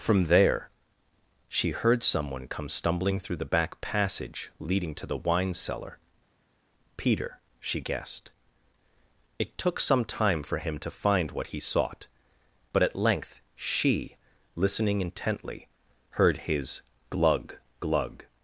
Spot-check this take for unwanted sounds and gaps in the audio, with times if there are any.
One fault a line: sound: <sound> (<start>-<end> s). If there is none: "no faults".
no faults